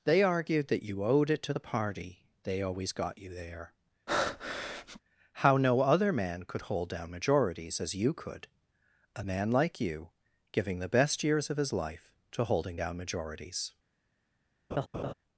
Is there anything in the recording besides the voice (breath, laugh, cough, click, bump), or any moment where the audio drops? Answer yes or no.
yes